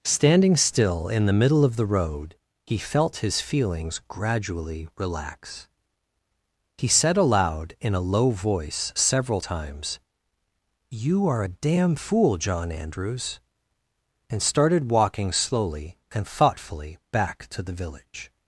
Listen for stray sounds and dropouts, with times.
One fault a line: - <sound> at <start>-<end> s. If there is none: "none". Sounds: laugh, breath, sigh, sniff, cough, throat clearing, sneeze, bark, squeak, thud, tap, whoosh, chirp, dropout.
none